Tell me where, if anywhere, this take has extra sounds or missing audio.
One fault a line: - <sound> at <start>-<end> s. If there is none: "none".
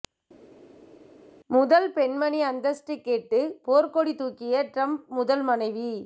none